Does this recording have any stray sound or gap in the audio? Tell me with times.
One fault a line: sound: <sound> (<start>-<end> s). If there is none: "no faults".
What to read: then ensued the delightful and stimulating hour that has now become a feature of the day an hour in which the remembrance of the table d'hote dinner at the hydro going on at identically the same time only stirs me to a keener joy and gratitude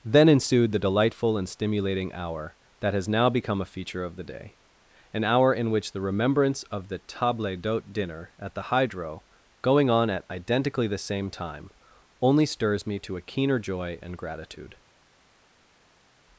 no faults